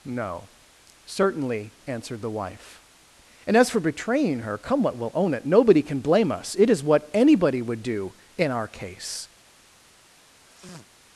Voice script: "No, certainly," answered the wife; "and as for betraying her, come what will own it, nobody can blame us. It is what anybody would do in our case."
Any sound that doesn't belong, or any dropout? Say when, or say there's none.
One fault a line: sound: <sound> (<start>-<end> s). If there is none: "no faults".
sound: sniff (10.4-10.9 s)